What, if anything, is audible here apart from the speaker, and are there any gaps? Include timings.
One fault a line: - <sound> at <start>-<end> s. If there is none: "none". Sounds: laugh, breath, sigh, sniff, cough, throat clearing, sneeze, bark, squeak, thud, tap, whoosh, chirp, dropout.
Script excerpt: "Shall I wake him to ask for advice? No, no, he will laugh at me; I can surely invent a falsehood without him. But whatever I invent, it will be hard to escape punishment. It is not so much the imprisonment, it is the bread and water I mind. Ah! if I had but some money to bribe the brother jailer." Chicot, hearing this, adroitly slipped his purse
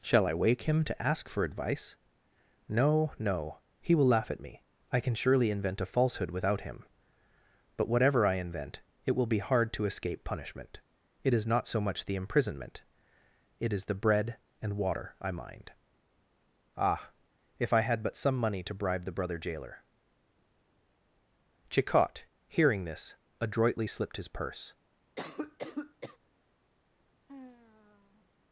- cough at 25.2-26.2 s
- sigh at 27.3-28.3 s